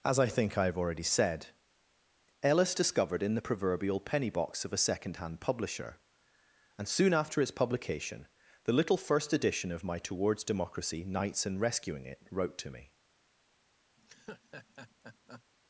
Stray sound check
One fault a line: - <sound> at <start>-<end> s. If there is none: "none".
- laugh at 14.0-15.4 s